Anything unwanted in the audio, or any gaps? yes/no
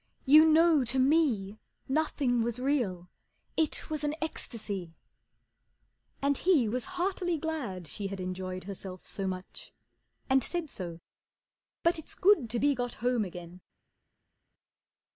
no